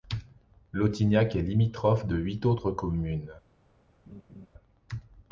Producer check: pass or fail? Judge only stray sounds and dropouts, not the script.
fail